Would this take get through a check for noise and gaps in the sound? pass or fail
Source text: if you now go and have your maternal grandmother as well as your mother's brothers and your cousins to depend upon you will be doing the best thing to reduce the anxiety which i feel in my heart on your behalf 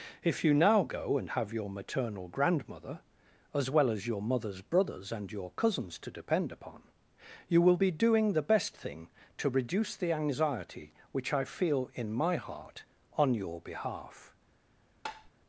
fail